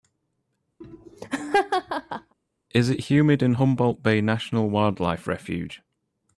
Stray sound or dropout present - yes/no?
yes